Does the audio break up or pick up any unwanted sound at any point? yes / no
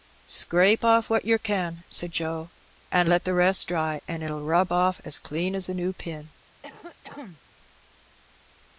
yes